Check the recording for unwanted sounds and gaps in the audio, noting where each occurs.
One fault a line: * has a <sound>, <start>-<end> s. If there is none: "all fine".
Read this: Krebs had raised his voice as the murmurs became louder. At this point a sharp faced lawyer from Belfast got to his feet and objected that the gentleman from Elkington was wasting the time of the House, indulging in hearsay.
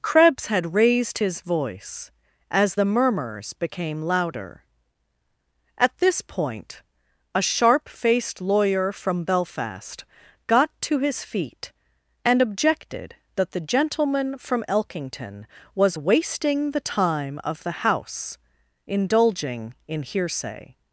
all fine